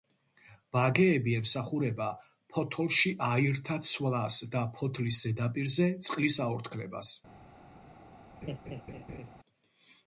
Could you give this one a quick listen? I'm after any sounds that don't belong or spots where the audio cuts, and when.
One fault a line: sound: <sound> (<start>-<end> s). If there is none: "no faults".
sound: laugh (8.4-9.3 s)